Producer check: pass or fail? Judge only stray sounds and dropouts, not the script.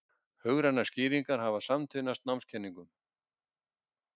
pass